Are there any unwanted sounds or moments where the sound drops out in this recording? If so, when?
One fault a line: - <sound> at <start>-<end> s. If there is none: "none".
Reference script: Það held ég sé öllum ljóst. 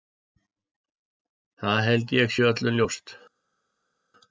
none